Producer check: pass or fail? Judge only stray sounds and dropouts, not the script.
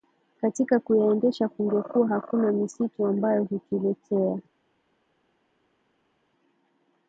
pass